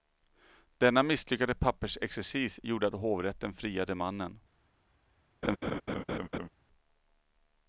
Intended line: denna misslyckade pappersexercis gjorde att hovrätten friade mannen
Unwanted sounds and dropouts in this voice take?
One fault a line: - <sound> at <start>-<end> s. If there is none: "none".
- laugh at 5.4-6.5 s